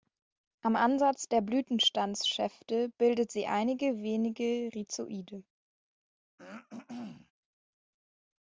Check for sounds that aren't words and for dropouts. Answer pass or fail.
fail